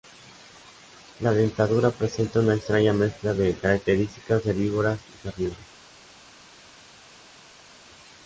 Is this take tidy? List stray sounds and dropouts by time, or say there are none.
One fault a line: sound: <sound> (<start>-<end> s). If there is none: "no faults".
no faults